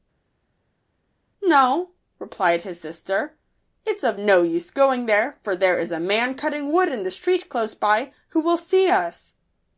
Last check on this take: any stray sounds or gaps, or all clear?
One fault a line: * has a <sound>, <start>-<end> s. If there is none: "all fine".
all fine